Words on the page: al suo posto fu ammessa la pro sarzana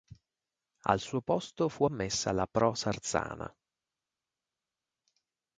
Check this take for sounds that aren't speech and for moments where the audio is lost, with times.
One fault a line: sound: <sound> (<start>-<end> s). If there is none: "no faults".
no faults